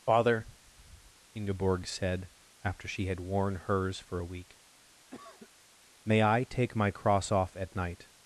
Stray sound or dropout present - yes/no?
yes